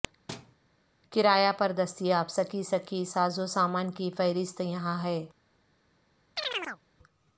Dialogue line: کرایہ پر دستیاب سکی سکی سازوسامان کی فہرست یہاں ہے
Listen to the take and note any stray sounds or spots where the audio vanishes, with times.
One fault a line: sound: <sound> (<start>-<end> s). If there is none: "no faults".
sound: thud (0.3-0.6 s)
sound: chirp (6.4-6.8 s)